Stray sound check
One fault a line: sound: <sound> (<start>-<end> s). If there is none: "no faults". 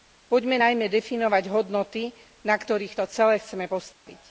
sound: dropout (3.9-4.1 s)